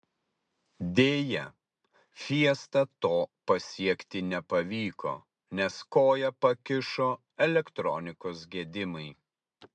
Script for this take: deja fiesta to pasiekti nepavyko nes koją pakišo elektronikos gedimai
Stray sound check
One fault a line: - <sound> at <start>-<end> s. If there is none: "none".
none